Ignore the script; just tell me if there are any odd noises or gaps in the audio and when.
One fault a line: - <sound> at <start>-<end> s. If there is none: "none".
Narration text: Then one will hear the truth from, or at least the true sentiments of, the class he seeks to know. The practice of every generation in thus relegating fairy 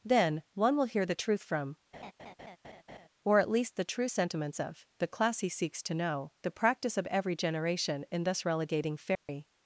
- laugh at 1.9-3.1 s
- dropout at 9.2-9.3 s